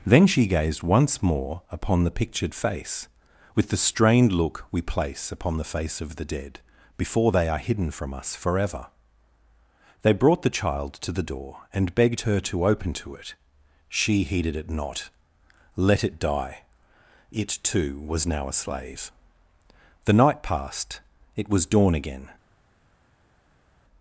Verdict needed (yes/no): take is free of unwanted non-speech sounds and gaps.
yes